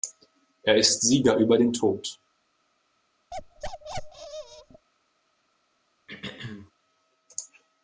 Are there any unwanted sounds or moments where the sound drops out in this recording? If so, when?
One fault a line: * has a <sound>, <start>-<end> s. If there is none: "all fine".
* has a bark, 3.3-4.9 s
* has a throat clearing, 6.1-6.7 s